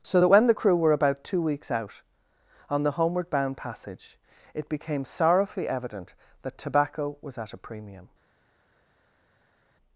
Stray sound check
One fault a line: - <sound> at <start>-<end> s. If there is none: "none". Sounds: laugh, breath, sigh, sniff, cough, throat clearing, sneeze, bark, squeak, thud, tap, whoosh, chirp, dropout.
none